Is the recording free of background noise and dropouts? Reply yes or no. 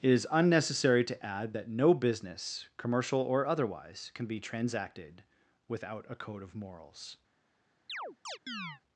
no